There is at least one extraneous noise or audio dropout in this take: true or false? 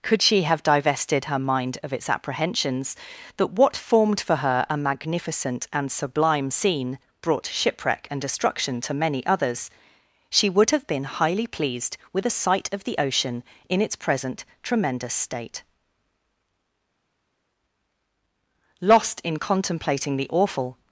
false